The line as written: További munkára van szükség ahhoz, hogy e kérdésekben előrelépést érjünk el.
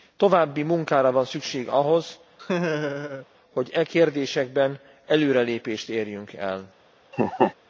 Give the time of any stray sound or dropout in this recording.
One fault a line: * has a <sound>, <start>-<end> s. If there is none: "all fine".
* has a laugh, 2.4-3.3 s
* has a laugh, 7.1-7.5 s